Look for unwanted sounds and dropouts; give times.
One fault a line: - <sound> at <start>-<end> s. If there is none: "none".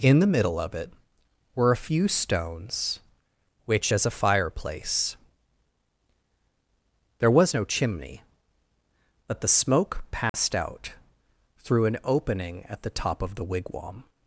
- dropout at 10.3-10.3 s